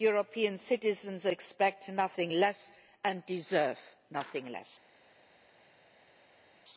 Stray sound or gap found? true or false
false